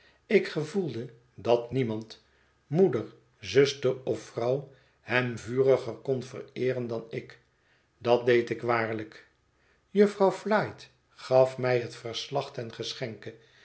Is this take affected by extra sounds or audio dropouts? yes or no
no